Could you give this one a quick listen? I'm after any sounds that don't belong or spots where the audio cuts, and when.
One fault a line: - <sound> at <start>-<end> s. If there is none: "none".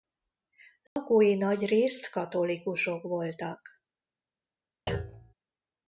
- dropout at 0.9-1.0 s
- thud at 4.9-5.3 s